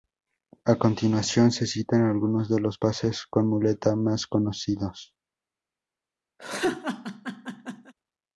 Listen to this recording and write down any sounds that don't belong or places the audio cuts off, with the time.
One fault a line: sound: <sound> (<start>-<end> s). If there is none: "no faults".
sound: laugh (6.4-7.9 s)